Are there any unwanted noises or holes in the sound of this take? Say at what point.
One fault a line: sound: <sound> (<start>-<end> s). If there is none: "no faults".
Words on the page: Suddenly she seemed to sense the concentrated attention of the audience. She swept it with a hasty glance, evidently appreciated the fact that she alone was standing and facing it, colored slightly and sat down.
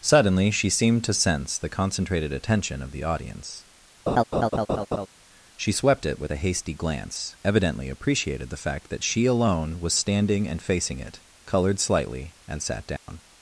sound: laugh (4.1-5.1 s)
sound: dropout (13.0-13.1 s)